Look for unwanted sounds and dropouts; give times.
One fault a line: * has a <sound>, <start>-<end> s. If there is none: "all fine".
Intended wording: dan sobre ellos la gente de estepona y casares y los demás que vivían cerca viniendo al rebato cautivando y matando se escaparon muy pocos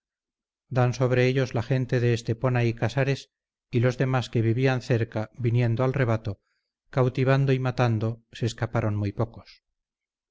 all fine